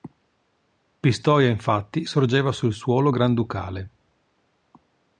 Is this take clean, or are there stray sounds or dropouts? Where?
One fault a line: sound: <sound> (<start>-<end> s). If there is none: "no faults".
no faults